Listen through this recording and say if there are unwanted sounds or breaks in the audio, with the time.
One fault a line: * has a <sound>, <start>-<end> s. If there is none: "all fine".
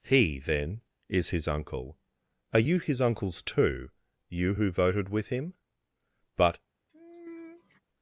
* has a sigh, 6.9-7.8 s